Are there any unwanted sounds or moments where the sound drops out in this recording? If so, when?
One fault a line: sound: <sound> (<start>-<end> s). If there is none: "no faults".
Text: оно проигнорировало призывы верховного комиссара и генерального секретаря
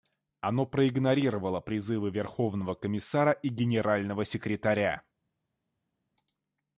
no faults